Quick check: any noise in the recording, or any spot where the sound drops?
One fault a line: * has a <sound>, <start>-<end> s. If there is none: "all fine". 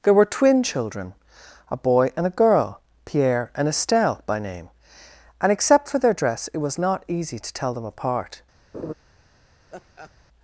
* has a laugh, 8.7-8.9 s
* has a laugh, 9.7-10.1 s